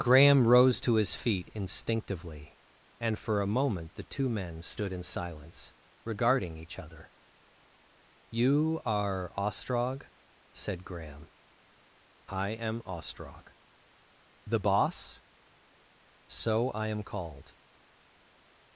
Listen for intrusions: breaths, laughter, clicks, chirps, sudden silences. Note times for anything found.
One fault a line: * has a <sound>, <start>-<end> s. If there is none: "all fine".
all fine